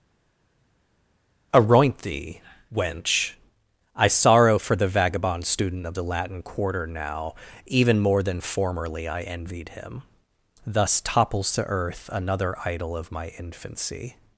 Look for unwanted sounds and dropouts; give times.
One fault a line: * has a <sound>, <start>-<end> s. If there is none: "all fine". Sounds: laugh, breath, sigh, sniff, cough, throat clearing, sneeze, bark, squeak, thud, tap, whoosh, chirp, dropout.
all fine